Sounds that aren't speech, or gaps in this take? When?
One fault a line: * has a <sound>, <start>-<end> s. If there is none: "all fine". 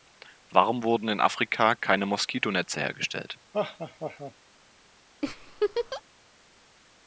* has a laugh, 3.5-4.3 s
* has a laugh, 5.2-6.0 s